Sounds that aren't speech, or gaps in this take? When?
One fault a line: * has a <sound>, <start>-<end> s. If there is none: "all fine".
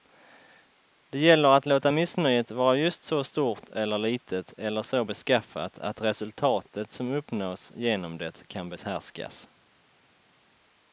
all fine